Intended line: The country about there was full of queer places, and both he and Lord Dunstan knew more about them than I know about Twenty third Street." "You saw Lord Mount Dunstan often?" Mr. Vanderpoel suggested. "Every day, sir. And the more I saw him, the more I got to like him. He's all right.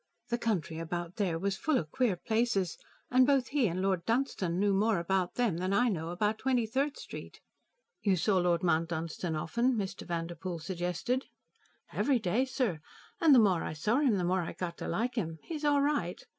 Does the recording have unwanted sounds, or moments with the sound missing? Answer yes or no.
no